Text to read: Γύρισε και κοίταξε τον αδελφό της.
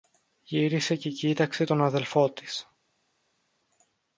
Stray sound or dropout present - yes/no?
no